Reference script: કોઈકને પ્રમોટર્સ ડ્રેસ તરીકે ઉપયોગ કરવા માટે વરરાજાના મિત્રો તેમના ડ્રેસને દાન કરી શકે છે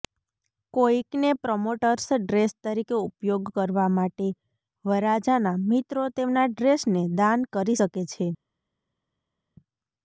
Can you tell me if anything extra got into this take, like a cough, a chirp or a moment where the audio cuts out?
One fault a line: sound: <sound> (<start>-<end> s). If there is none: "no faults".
no faults